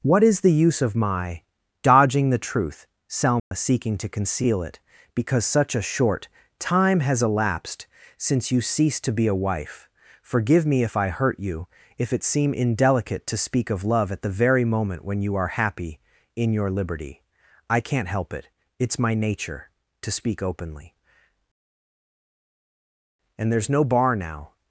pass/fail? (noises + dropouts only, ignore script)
fail